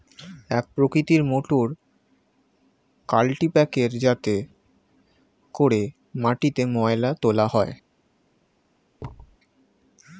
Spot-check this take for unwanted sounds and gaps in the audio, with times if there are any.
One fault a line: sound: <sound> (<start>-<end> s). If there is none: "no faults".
sound: thud (9.0-9.4 s)